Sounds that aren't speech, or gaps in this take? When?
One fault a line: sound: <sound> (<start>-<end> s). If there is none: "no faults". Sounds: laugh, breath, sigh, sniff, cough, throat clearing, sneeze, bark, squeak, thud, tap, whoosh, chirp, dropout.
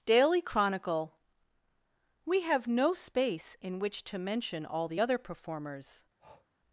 sound: breath (6.2-6.5 s)